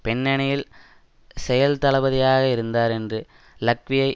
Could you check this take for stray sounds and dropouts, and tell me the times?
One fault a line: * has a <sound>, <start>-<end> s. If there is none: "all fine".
all fine